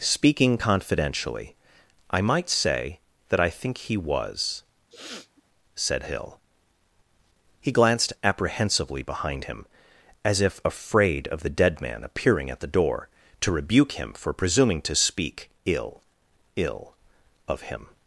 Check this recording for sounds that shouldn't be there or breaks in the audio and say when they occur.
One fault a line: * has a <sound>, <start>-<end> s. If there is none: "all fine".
* has a sniff, 4.9-5.4 s